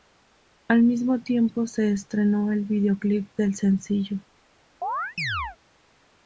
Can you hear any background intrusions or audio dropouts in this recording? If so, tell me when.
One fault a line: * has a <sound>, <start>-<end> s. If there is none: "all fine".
* has a chirp, 4.8-5.6 s